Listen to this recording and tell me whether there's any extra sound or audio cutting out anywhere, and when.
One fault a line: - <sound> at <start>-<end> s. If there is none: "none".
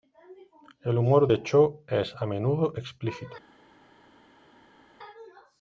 none